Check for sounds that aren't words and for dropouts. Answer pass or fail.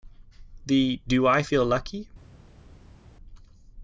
pass